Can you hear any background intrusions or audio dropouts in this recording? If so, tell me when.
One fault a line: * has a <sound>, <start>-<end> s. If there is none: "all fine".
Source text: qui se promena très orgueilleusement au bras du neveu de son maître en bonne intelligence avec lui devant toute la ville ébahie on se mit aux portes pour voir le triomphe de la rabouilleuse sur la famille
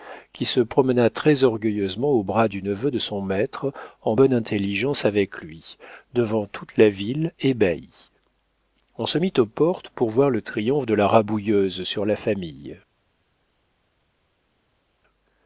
all fine